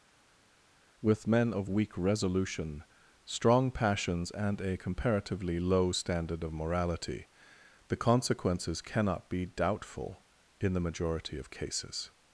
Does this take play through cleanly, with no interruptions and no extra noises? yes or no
yes